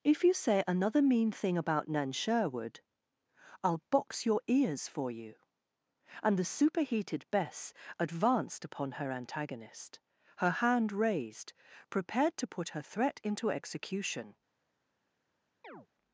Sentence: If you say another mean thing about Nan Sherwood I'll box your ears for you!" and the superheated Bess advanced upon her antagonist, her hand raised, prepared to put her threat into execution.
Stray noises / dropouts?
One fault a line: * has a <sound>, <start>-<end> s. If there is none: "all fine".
* has a chirp, 15.6-15.9 s